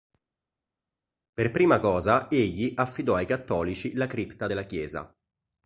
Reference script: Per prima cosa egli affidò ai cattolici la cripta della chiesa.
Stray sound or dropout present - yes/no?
no